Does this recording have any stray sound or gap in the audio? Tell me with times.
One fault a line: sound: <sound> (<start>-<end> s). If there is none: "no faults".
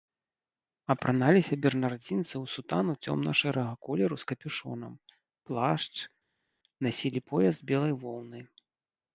no faults